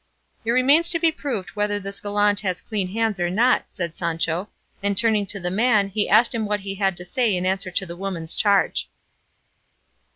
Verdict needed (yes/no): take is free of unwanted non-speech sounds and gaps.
yes